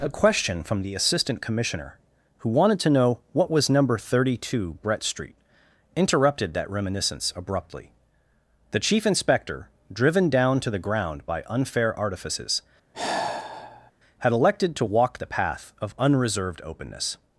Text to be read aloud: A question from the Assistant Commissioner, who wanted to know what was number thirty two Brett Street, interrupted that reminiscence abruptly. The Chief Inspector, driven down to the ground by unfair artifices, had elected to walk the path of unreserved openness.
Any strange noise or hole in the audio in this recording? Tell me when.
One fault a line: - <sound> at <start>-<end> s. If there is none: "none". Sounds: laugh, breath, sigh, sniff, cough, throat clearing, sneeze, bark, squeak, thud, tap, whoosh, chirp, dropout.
- sigh at 12.9-13.9 s